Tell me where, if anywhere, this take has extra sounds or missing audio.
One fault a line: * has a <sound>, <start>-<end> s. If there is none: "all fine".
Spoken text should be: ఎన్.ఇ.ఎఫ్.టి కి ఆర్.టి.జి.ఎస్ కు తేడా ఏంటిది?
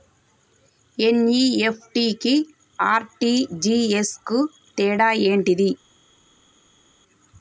all fine